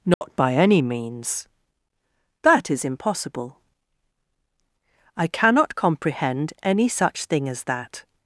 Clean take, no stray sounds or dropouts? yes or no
no